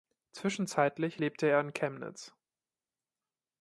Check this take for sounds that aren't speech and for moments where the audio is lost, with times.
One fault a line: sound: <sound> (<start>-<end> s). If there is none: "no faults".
no faults